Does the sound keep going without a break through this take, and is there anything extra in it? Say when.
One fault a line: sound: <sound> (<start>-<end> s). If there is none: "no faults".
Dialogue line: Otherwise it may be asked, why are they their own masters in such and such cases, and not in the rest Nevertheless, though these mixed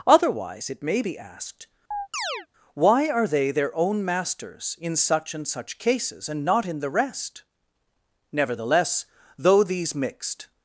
sound: chirp (1.9-2.5 s)